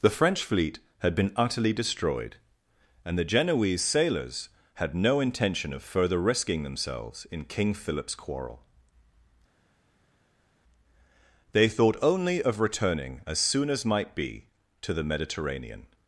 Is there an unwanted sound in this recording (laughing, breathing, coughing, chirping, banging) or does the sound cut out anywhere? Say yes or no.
no